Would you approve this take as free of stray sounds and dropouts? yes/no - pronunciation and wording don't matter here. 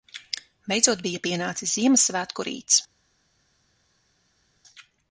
yes